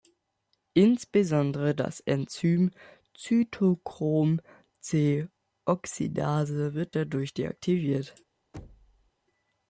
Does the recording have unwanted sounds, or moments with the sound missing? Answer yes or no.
yes